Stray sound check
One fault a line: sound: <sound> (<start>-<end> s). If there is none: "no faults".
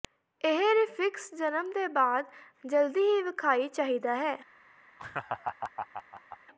sound: laugh (5.0-6.4 s)